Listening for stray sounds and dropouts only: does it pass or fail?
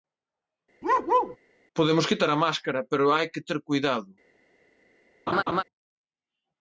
fail